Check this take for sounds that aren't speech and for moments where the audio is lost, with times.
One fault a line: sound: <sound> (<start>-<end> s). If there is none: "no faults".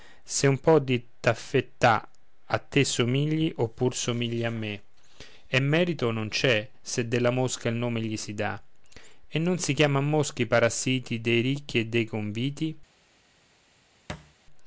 sound: thud (14.1-14.3 s)